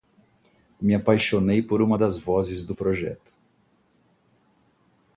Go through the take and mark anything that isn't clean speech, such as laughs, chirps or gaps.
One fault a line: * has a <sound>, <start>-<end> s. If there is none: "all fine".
all fine